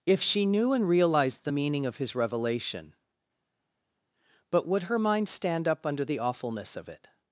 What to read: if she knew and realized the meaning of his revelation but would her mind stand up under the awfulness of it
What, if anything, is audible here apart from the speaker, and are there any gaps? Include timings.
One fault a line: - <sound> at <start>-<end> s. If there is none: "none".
none